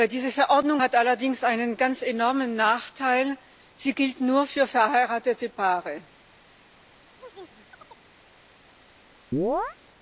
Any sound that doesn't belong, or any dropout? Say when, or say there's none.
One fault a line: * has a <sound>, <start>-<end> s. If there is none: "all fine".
* has a chirp, 7.2-8.1 s
* has a chirp, 9.3-9.8 s